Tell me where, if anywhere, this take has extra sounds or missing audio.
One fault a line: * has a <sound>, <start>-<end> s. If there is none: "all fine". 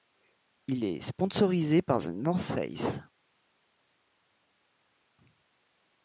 all fine